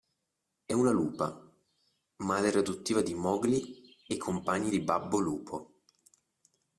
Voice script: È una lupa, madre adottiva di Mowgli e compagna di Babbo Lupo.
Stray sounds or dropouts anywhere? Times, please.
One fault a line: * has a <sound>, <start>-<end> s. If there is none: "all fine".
all fine